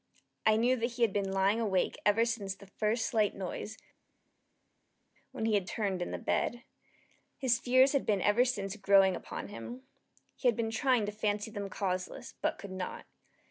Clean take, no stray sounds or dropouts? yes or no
yes